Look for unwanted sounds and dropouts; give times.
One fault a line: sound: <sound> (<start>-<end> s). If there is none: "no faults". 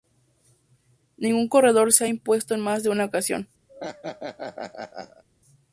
sound: laugh (3.7-5.2 s)